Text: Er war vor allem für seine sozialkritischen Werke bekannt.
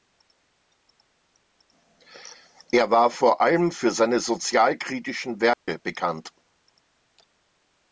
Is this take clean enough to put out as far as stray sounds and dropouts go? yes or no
no